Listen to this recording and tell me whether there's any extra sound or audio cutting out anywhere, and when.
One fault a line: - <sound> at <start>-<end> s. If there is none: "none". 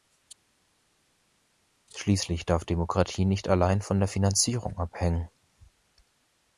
none